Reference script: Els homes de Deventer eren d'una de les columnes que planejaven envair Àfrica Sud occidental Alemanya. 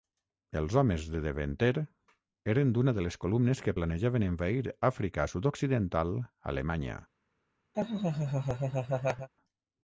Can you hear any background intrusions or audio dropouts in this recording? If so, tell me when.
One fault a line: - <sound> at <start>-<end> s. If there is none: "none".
- laugh at 7.7-9.3 s